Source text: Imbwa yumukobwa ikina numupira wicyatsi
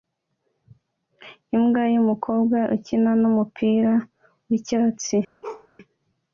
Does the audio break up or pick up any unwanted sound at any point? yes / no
yes